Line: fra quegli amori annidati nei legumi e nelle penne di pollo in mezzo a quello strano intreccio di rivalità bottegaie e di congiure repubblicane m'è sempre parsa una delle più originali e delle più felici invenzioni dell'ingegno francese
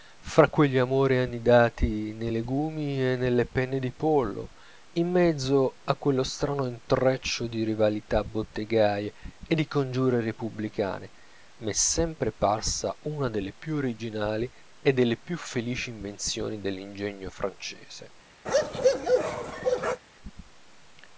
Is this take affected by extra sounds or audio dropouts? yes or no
yes